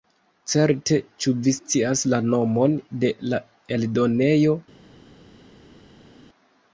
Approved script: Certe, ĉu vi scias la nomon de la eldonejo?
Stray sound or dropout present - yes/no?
no